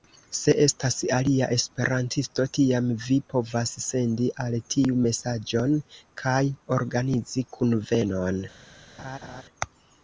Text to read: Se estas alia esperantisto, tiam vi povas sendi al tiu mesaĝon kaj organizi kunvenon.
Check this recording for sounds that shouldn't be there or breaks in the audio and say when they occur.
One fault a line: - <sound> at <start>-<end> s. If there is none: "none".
- laugh at 9.0-9.4 s